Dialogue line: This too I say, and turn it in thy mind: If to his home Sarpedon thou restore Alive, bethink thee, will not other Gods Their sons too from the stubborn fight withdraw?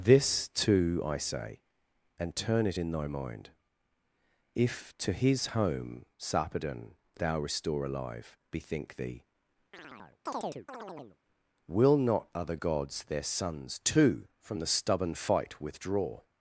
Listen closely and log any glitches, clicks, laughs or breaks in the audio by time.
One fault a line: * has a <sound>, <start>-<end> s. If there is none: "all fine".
* has a chirp, 9.7-11.2 s